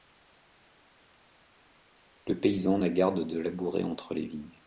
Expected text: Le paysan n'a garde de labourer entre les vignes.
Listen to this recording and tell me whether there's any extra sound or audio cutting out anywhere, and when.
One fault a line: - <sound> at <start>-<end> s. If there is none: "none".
none